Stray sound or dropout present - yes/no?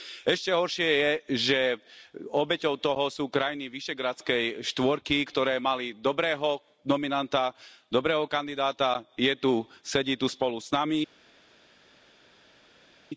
no